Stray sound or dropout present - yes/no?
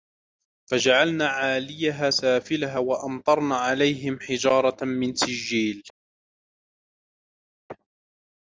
no